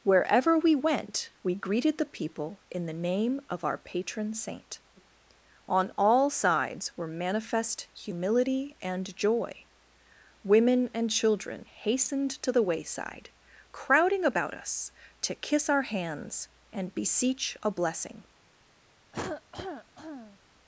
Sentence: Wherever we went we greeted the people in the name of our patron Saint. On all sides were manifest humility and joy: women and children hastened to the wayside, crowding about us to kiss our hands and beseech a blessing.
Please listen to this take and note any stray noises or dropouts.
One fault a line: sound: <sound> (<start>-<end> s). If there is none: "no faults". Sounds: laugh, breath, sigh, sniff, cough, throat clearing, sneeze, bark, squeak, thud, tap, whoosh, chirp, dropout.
sound: cough (19.1-20.4 s)